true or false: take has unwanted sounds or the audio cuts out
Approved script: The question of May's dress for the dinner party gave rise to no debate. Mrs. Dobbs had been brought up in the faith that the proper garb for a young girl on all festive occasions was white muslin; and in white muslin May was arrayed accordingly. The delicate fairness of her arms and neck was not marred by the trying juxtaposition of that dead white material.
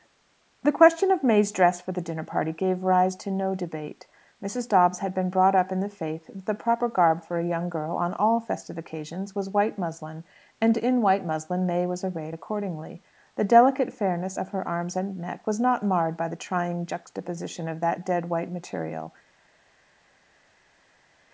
false